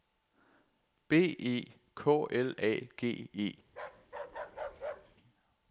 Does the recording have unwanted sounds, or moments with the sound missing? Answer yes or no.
yes